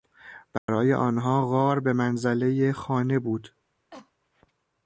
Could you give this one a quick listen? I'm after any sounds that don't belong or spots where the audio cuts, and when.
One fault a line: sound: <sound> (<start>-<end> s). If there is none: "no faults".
sound: dropout (0.6-0.7 s)
sound: cough (3.9-4.1 s)